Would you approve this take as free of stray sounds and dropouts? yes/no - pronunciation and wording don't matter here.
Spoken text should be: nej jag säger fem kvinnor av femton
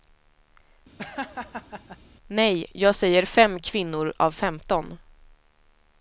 no